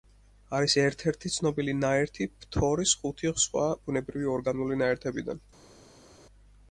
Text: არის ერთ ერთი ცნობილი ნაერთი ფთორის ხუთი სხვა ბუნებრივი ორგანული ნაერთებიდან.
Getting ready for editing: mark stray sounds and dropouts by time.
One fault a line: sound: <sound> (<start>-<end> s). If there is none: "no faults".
no faults